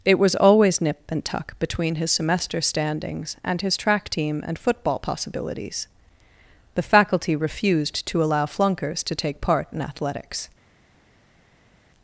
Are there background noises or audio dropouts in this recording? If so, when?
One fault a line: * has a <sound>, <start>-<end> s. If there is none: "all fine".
all fine